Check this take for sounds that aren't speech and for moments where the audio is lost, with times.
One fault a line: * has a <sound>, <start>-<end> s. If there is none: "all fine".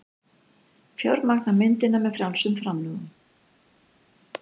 all fine